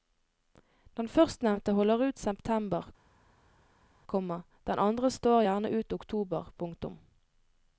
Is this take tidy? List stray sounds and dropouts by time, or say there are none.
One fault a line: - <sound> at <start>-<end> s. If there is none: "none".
none